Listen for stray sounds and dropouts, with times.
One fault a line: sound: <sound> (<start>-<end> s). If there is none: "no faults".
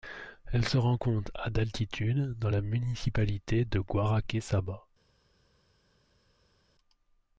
no faults